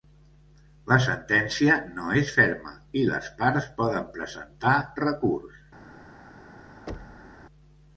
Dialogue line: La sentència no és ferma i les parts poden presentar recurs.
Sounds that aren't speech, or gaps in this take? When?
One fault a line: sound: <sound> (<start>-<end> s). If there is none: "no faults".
sound: thud (6.9-7.4 s)